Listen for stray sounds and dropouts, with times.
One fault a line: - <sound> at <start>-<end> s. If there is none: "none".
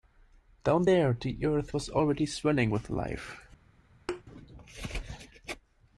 - thud at 4.1-4.2 s